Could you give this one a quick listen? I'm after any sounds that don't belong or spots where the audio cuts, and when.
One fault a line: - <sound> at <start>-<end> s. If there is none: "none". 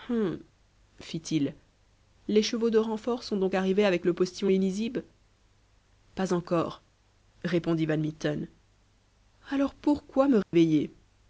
- dropout at 10.4-10.5 s